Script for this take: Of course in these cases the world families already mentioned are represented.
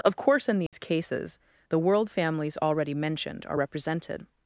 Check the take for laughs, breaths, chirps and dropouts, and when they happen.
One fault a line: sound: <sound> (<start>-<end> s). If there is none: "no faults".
sound: dropout (0.7-0.7 s)